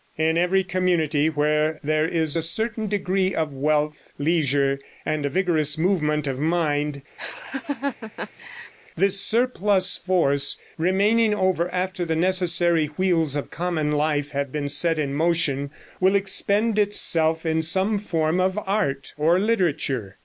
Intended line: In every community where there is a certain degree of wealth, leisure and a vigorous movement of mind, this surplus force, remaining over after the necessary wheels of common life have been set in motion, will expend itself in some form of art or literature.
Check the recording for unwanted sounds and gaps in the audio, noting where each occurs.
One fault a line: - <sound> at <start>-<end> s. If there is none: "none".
- laugh at 7.2-8.7 s